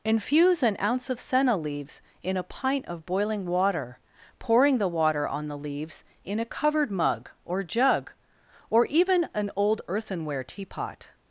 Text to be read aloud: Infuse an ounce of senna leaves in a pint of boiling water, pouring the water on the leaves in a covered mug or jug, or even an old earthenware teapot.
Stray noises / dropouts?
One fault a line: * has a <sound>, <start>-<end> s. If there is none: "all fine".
all fine